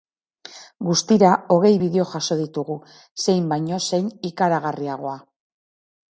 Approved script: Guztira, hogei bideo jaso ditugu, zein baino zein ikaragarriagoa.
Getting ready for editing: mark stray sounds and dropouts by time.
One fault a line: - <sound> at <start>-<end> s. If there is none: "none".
none